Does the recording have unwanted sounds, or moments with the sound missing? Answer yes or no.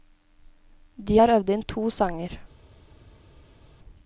no